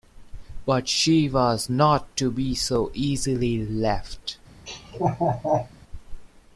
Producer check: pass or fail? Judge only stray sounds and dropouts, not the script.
fail